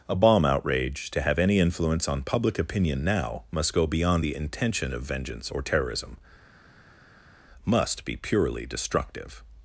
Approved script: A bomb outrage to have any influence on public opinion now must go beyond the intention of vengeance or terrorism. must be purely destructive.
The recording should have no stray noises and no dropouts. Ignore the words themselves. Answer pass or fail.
pass